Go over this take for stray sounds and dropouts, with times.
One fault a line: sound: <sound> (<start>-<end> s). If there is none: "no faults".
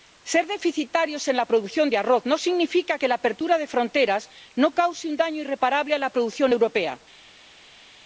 no faults